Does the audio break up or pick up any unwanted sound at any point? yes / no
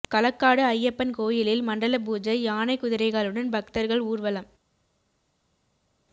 no